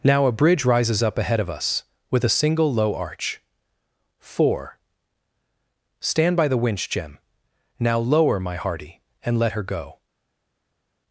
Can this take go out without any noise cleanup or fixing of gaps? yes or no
yes